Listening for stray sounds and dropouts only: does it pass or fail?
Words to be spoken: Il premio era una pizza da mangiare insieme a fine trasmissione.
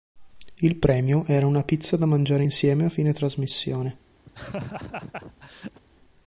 fail